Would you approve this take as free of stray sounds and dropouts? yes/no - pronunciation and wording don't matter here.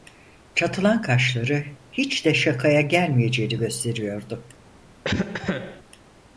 no